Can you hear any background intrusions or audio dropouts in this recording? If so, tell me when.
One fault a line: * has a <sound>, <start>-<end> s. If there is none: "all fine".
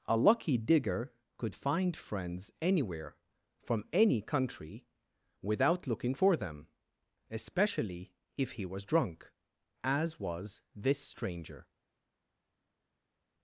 all fine